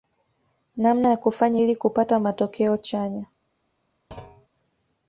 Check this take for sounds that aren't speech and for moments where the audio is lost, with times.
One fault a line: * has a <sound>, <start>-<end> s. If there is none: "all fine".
* has a thud, 4.1-4.5 s